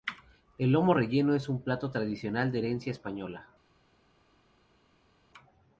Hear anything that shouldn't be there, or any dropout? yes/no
no